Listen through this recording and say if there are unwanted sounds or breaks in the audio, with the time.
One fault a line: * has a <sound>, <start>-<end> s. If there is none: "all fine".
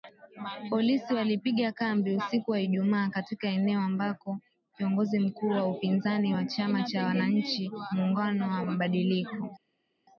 all fine